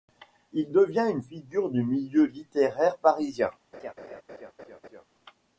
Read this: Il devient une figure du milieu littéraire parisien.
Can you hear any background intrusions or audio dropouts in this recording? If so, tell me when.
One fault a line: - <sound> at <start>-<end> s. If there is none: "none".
- laugh at 3.7-5.0 s